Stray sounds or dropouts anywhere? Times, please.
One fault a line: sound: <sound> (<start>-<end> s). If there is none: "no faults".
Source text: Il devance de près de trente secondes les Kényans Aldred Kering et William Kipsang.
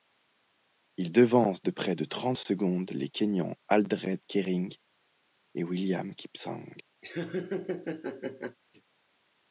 sound: laugh (7.0-8.6 s)